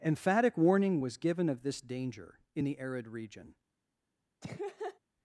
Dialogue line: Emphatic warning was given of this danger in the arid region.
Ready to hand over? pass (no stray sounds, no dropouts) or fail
fail